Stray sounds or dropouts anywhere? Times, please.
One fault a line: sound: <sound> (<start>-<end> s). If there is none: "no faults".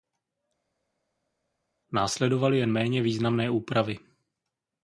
no faults